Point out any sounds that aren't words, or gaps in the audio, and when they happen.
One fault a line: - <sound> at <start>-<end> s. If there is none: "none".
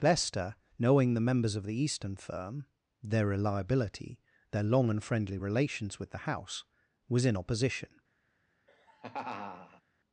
- laugh at 8.7-9.8 s